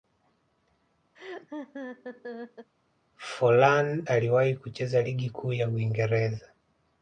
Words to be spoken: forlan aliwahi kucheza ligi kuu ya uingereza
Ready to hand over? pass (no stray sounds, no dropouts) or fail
fail